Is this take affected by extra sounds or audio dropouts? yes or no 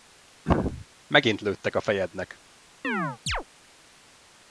yes